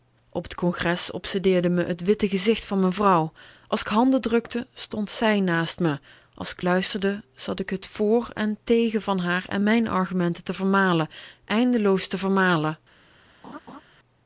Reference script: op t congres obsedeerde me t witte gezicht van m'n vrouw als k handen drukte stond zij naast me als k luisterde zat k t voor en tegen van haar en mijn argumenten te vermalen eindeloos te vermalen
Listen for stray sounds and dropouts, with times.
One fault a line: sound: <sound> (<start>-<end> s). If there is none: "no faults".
sound: laugh (13.4-13.8 s)